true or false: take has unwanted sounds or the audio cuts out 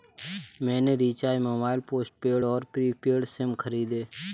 false